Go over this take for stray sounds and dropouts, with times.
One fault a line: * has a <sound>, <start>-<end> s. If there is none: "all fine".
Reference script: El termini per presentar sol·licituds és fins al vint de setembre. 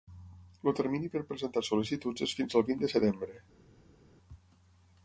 all fine